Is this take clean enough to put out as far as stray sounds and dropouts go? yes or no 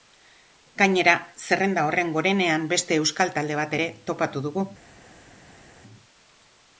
yes